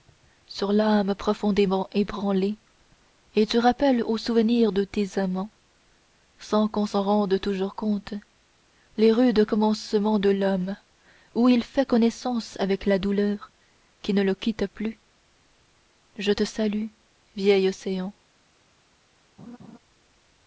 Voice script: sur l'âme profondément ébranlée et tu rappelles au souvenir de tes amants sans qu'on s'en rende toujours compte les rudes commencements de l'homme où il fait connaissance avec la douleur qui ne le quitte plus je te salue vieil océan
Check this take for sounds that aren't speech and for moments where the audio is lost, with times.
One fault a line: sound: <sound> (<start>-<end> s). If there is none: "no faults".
sound: laugh (19.4-19.8 s)